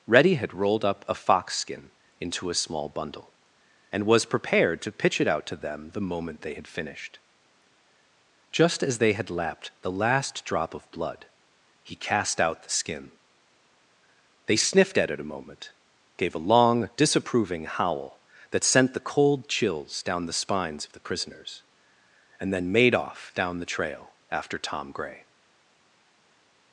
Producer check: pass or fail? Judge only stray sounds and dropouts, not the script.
pass